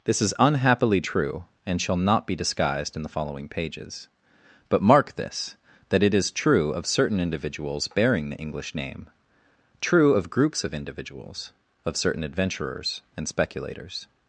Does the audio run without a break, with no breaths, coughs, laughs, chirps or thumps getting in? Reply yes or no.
yes